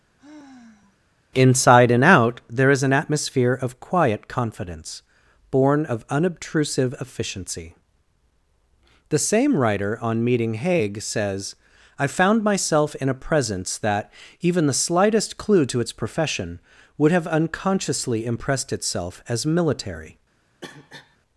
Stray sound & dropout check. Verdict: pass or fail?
fail